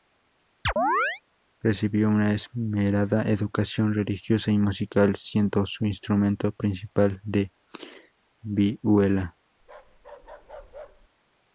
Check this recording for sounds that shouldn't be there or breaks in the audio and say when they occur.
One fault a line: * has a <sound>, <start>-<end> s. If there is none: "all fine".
* has a chirp, 0.7-1.2 s
* has a bark, 9.6-11.1 s